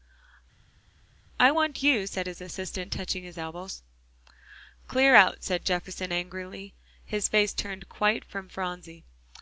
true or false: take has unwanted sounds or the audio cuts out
false